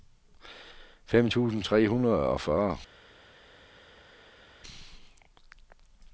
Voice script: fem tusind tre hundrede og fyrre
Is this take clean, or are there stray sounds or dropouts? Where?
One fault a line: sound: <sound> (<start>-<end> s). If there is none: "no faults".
no faults